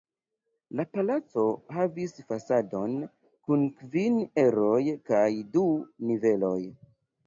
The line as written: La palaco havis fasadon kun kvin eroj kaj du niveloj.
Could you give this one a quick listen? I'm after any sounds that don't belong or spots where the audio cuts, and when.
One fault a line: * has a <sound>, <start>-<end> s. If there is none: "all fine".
all fine